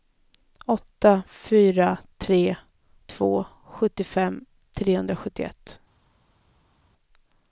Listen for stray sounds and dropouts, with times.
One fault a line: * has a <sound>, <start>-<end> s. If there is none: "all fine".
all fine